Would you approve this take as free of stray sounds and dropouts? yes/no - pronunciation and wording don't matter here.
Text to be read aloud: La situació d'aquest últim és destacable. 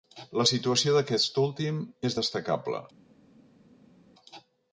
yes